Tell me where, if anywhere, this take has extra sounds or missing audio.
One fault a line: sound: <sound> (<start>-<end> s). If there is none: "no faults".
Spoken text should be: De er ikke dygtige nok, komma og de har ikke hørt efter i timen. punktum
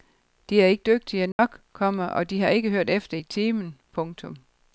sound: dropout (1.3-1.4 s)